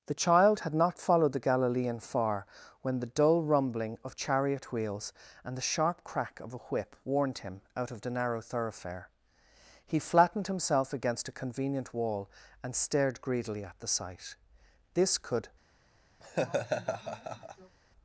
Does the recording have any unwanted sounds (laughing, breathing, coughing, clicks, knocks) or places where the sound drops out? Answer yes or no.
yes